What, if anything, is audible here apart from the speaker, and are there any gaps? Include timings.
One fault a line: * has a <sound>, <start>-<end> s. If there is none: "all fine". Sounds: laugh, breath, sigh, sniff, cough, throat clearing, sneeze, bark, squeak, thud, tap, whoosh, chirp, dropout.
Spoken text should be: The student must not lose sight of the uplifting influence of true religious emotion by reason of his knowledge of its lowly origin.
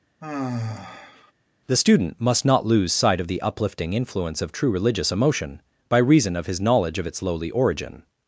* has a sigh, 0.2-1.3 s